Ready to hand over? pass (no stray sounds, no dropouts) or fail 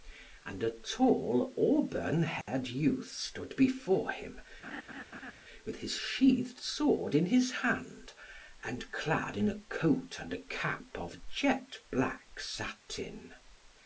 fail